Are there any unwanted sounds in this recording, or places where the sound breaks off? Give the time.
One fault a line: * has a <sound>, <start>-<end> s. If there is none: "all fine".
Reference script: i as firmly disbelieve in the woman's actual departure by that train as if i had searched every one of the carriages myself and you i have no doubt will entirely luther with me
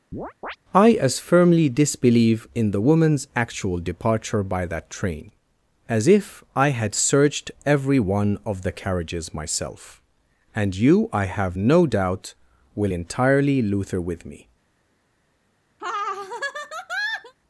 * has a chirp, 0.1-0.6 s
* has a laugh, 15.8-17.3 s